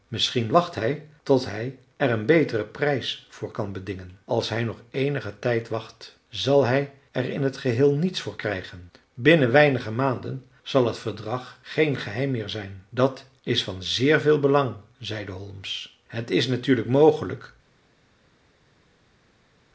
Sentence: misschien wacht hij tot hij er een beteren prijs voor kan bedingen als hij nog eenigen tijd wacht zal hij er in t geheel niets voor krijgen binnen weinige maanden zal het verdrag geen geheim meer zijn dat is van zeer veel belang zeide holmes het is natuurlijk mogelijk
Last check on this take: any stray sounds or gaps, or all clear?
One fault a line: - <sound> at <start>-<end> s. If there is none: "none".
none